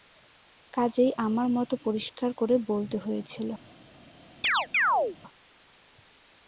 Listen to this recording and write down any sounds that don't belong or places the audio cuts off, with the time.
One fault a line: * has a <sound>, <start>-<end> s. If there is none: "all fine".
* has a chirp, 4.4-5.2 s